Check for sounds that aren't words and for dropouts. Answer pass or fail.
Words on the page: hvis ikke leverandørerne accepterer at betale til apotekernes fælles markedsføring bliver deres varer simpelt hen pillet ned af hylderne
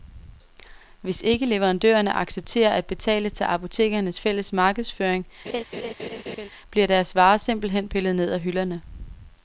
fail